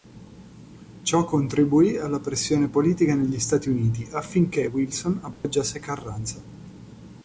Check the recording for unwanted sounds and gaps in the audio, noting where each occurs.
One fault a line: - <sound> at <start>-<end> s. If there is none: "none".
- dropout at 5.3-5.4 s